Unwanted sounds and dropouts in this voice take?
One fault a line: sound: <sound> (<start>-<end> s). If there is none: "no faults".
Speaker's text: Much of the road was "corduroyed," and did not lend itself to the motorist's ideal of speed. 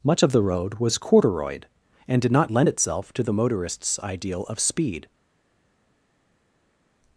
no faults